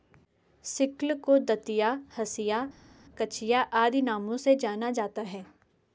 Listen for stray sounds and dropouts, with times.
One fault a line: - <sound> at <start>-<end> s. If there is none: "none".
none